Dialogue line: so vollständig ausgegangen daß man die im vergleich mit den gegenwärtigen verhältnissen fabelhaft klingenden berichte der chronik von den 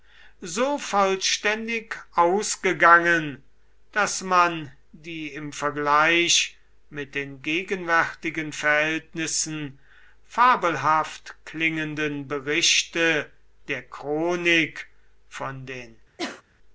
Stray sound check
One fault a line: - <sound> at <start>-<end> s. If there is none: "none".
- sneeze at 16.2-16.4 s